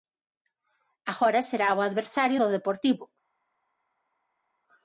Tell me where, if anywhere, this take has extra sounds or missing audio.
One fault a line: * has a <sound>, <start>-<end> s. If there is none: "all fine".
all fine